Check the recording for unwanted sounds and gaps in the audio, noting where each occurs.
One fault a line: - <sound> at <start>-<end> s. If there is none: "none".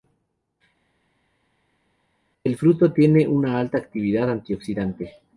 none